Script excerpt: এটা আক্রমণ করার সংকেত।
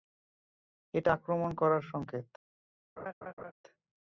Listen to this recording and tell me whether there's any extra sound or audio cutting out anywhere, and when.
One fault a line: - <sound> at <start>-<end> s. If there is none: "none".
- laugh at 3.0-3.5 s